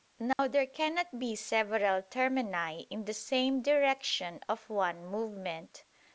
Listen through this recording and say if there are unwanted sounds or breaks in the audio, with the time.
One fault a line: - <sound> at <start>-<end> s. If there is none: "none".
- dropout at 0.3-0.4 s